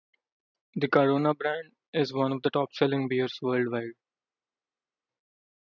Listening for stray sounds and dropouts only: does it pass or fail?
pass